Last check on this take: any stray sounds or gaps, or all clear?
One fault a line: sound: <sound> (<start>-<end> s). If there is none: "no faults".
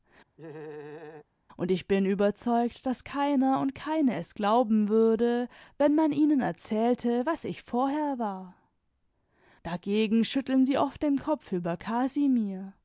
sound: laugh (0.4-1.3 s)